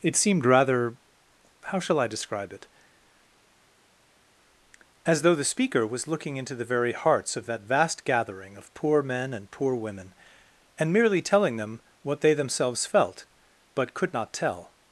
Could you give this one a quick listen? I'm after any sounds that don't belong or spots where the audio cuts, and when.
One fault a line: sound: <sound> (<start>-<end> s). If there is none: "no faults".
no faults